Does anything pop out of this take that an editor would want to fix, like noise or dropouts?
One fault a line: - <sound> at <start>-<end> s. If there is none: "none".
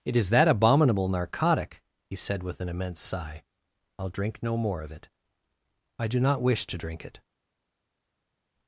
none